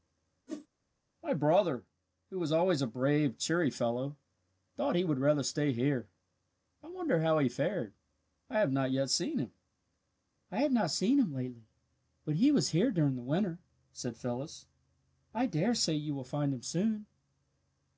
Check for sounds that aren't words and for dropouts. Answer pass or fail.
fail